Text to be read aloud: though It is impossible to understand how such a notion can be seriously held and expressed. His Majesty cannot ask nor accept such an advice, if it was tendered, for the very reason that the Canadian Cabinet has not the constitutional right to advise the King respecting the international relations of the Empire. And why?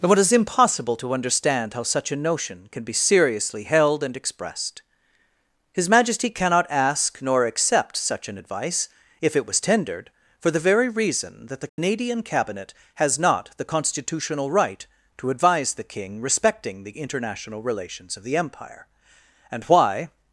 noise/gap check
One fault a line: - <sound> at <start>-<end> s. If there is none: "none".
- dropout at 11.7-11.8 s